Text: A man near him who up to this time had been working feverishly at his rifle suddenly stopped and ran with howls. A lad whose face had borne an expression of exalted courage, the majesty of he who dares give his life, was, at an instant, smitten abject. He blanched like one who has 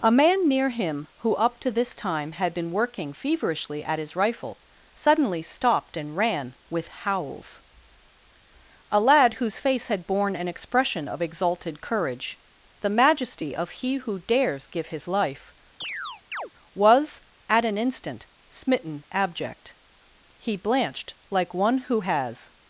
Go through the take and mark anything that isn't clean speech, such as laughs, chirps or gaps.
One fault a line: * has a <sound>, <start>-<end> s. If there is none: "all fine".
* has a chirp, 15.8-16.5 s